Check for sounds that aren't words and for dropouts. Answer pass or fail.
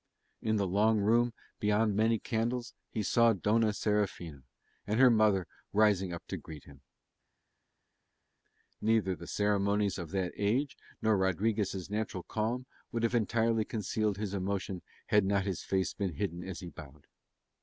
pass